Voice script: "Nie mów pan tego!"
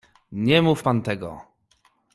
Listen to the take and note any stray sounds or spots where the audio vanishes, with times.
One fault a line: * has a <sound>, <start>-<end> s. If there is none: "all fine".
all fine